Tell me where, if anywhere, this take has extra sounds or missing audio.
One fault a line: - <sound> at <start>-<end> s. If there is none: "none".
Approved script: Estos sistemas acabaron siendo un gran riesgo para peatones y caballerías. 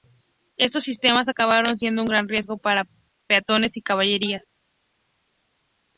none